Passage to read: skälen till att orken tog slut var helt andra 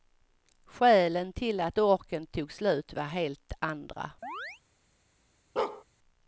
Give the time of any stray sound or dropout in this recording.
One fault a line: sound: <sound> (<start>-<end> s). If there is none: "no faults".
sound: chirp (4.2-4.6 s)
sound: bark (5.6-5.8 s)